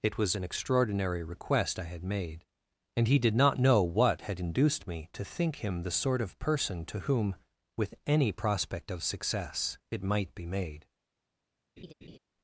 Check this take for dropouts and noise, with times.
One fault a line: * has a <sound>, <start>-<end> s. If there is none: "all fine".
* has a laugh, 11.8-12.2 s